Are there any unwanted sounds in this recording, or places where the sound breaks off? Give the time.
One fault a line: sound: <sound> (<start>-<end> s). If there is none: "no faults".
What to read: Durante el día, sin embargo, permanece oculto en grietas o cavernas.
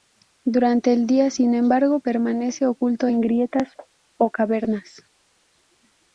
no faults